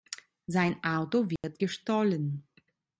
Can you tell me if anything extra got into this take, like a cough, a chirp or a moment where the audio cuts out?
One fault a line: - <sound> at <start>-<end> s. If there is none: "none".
- dropout at 1.4-1.4 s